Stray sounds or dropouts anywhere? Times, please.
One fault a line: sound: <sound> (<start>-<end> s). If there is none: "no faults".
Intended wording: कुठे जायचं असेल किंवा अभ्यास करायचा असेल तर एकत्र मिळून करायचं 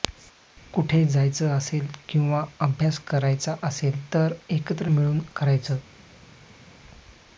no faults